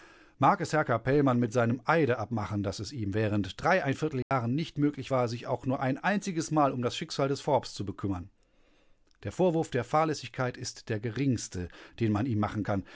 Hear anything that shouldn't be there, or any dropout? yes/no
yes